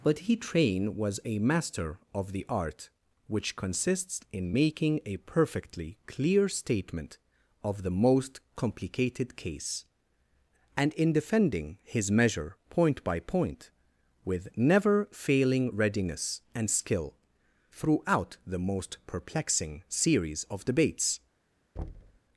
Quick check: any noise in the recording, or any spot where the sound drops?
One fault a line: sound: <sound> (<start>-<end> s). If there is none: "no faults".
sound: thud (21.8-22.2 s)